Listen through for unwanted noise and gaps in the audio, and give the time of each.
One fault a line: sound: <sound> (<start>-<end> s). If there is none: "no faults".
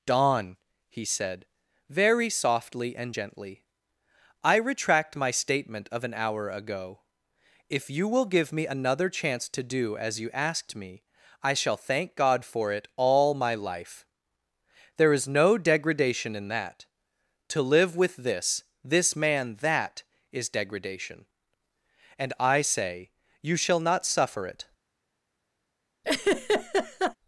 sound: laugh (26.0-27.2 s)